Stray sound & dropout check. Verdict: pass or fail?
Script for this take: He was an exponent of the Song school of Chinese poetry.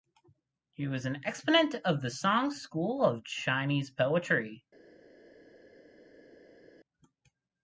pass